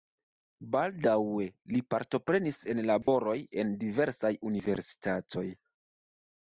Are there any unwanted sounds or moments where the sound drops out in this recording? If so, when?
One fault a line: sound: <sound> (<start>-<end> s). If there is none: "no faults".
sound: dropout (3.0-3.1 s)